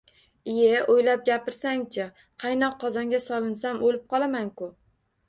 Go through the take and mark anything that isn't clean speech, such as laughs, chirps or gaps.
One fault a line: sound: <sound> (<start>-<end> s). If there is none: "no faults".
no faults